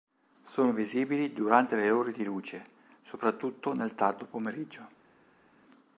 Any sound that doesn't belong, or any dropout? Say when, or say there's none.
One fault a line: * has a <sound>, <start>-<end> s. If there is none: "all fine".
all fine